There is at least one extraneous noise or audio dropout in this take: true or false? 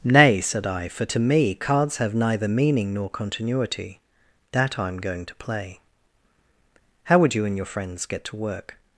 false